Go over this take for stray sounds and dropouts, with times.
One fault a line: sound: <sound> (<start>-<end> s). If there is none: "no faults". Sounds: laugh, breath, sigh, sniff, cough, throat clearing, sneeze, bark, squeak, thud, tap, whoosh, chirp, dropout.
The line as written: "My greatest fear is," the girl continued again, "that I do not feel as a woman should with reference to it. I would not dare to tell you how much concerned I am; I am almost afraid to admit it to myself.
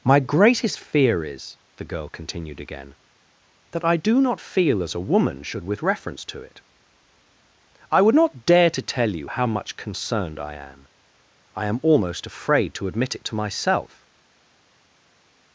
no faults